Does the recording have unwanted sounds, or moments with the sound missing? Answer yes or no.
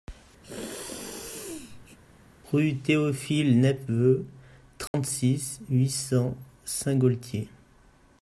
yes